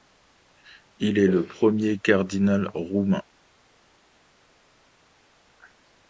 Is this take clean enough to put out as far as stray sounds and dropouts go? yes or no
yes